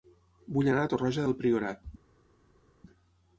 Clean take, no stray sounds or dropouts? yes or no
yes